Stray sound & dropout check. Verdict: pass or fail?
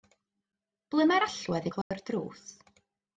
fail